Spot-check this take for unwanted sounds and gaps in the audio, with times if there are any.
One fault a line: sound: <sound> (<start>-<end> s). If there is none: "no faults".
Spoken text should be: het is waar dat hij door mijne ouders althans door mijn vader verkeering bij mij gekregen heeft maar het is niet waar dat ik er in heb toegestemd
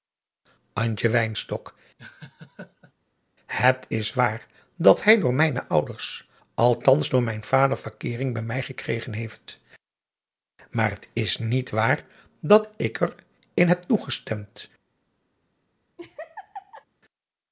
sound: laugh (2.0-2.9 s)
sound: laugh (16.0-16.9 s)